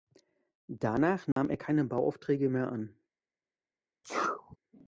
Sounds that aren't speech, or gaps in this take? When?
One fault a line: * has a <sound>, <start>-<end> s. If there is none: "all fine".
* has a dropout, 1.3-1.4 s
* has a sneeze, 4.0-4.6 s